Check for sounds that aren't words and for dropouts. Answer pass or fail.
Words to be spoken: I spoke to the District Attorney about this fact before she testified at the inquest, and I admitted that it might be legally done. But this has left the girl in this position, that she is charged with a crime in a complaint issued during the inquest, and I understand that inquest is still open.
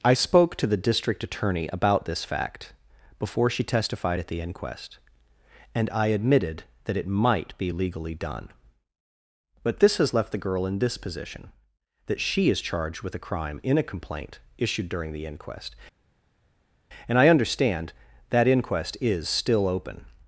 pass